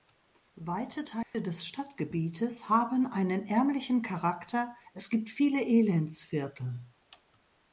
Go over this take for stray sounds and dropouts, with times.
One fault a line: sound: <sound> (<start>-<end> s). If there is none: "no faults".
sound: dropout (1.2-1.3 s)